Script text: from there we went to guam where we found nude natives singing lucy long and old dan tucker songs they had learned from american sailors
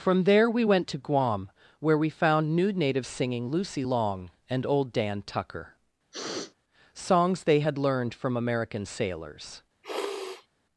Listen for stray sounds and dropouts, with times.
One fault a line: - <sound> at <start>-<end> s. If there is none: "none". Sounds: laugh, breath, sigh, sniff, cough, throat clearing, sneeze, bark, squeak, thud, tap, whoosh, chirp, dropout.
- sniff at 6.1-6.5 s
- sniff at 9.8-10.5 s